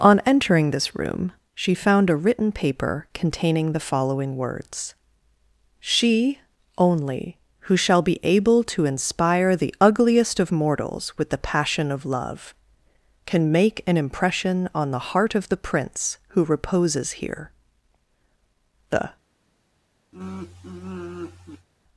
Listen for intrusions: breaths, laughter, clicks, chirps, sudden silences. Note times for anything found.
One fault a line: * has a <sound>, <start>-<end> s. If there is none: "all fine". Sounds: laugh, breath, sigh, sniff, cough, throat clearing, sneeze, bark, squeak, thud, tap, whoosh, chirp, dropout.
* has a sigh, 20.1-21.7 s